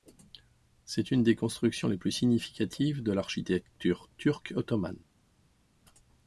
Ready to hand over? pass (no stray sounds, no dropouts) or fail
pass